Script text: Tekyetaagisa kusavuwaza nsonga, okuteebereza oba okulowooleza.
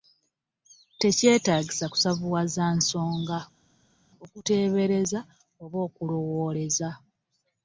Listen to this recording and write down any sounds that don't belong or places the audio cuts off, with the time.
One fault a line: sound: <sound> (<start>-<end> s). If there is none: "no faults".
no faults